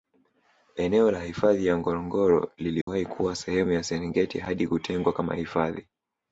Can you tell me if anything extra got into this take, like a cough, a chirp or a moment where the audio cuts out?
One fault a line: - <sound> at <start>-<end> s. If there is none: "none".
- dropout at 2.8-2.9 s